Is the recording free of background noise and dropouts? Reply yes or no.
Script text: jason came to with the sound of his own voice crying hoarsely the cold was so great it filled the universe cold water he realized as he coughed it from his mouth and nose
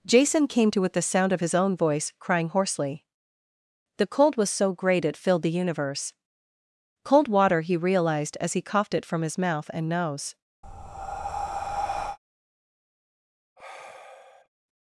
no